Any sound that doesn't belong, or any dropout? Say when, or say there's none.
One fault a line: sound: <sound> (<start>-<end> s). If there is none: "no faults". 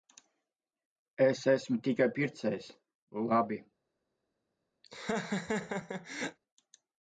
sound: laugh (4.8-6.4 s)